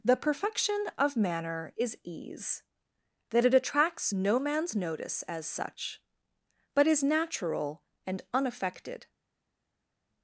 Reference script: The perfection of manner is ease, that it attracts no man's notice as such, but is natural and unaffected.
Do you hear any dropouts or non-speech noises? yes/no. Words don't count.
no